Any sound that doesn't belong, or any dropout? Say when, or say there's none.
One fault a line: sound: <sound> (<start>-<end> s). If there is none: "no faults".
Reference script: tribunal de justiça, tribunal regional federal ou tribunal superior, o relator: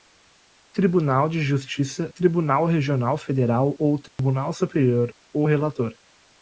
sound: dropout (4.1-4.2 s)